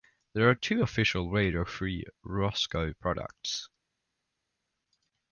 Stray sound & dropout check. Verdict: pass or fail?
pass